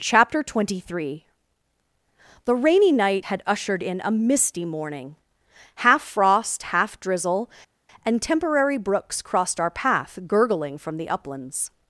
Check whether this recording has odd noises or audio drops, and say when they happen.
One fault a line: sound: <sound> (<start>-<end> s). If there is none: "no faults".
no faults